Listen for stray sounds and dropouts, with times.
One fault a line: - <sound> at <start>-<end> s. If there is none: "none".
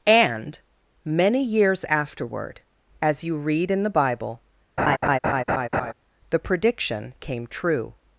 - laugh at 4.8-5.9 s